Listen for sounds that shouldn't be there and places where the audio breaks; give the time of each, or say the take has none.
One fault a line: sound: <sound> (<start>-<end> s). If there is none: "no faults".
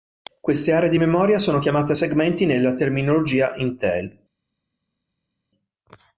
no faults